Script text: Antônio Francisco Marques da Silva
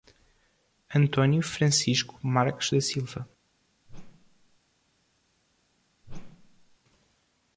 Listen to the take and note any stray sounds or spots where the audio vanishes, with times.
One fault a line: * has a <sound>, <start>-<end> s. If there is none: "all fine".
* has a whoosh, 3.9-4.6 s
* has a whoosh, 6.0-6.8 s